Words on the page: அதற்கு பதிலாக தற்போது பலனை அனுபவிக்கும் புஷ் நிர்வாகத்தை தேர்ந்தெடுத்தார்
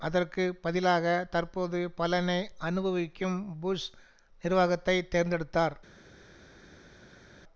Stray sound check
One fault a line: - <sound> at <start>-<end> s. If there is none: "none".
none